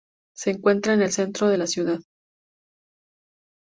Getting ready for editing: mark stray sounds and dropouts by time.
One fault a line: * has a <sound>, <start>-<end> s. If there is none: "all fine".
all fine